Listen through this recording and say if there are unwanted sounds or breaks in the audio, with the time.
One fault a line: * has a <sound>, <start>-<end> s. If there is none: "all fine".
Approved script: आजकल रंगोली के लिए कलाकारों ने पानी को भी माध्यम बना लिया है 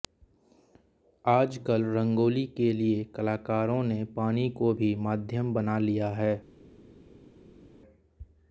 all fine